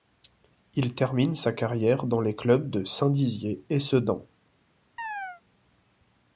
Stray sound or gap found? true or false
true